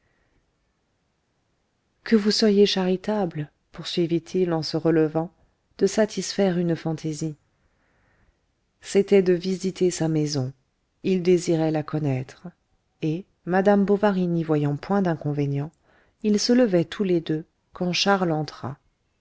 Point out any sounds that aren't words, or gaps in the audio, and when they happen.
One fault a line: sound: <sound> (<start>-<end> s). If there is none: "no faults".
no faults